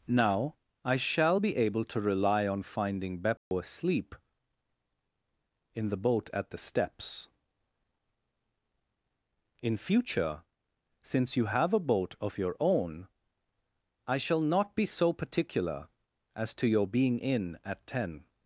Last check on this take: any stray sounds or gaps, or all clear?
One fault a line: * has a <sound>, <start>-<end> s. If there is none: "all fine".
* has a dropout, 3.4-3.5 s